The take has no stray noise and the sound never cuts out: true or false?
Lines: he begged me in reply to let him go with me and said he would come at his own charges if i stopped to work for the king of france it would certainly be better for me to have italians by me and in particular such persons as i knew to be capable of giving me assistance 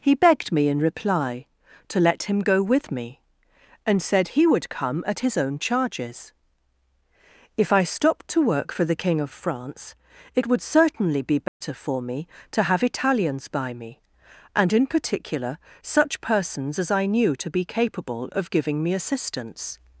false